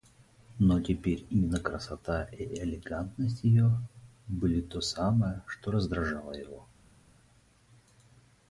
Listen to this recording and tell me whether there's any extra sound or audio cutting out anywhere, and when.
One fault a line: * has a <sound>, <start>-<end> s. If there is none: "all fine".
all fine